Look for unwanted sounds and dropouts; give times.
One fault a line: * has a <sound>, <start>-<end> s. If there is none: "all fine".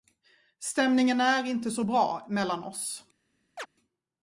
* has a chirp, 3.6-3.7 s